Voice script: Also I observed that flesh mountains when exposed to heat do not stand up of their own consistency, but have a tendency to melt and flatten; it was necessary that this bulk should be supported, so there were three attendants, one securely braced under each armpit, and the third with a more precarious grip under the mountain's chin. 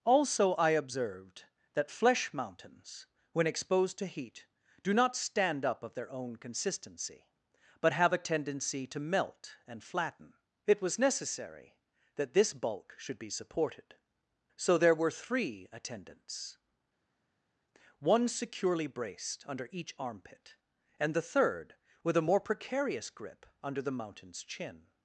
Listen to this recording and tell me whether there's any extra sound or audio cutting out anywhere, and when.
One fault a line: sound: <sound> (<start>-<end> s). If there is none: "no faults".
no faults